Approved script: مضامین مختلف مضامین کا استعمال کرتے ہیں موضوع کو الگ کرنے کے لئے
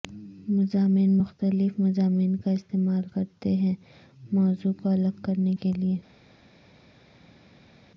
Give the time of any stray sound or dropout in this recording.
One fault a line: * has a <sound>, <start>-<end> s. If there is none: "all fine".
all fine